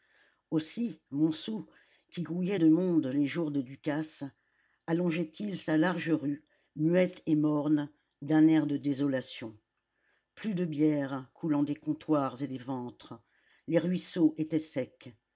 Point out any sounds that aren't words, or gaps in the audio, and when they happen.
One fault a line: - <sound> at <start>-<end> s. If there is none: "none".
none